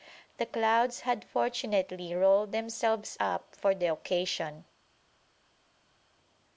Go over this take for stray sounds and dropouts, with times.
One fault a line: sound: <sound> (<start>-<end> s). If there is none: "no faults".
no faults